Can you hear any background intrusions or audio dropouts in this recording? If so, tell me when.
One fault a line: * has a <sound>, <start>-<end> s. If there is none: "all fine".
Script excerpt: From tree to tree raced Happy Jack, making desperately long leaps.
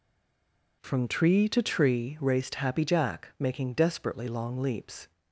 all fine